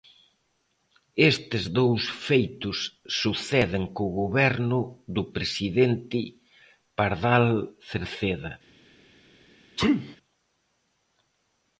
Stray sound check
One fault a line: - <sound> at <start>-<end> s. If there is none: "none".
- sneeze at 9.8-10.2 s